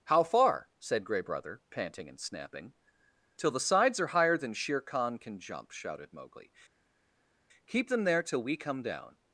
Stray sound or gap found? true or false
false